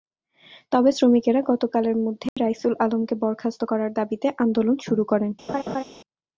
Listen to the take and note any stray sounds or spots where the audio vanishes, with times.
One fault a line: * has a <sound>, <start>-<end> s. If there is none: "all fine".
* has a dropout, 2.3-2.4 s
* has a laugh, 5.5-5.8 s